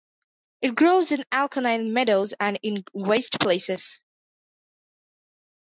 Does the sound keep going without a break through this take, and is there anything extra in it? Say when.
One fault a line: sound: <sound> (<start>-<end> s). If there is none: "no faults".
no faults